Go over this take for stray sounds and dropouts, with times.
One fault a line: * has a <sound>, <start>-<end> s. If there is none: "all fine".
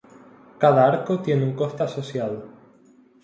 all fine